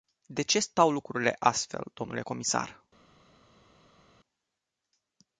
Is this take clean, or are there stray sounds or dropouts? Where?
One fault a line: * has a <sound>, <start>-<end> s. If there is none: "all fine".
all fine